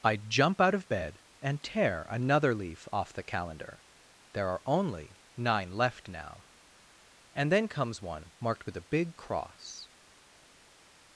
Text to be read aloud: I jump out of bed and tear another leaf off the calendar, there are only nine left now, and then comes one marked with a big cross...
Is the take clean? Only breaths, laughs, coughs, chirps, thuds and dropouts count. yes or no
yes